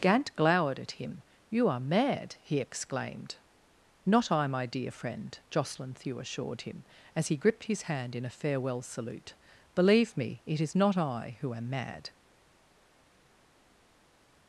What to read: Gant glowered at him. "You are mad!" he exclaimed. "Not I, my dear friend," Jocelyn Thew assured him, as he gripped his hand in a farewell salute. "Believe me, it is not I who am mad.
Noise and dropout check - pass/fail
pass